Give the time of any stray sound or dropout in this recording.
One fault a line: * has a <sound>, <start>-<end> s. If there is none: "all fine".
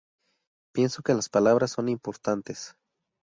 all fine